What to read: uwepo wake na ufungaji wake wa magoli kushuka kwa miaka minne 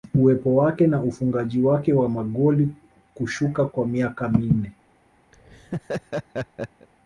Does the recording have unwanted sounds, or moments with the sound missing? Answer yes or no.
yes